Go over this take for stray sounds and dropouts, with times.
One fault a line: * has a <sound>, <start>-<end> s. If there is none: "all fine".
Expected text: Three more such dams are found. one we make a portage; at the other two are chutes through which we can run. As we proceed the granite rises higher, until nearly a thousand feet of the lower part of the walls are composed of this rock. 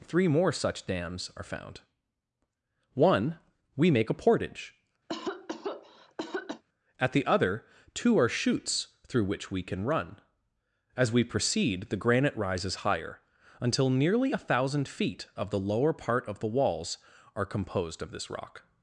* has a cough, 5.1-6.6 s